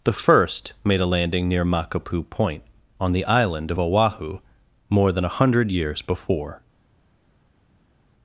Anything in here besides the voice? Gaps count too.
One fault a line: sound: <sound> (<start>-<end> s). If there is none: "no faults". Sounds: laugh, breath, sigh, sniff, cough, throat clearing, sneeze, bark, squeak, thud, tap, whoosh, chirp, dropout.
no faults